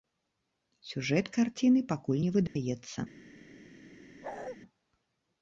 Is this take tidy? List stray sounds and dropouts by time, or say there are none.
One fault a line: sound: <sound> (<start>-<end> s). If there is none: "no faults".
sound: dropout (2.5-2.6 s)
sound: bark (4.2-4.6 s)